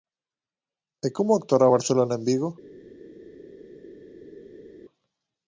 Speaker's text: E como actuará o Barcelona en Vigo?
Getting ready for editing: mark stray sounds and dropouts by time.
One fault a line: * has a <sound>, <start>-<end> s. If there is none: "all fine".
all fine